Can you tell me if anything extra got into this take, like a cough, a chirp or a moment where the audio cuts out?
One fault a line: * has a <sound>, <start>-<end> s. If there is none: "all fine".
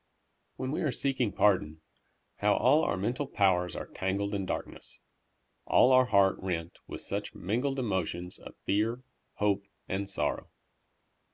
all fine